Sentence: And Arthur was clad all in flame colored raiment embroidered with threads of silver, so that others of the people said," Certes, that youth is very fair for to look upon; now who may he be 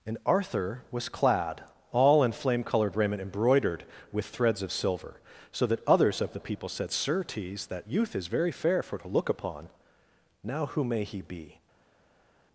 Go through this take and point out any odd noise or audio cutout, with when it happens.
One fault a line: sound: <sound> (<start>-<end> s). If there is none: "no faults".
no faults